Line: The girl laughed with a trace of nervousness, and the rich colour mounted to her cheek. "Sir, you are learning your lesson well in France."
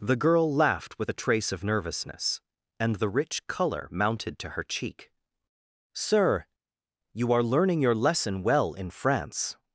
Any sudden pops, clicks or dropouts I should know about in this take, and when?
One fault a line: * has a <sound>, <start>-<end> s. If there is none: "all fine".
all fine